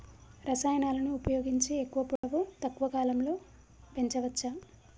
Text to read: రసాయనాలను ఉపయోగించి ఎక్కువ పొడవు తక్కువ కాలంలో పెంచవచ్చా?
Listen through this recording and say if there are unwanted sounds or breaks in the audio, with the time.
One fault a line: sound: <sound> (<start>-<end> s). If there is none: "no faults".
sound: dropout (2.2-2.2 s)